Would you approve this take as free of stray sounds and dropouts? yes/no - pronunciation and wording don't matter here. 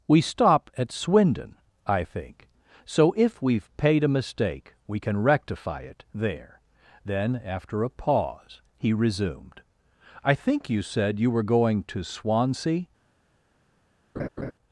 no